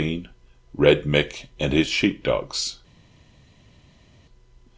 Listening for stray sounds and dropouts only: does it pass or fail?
pass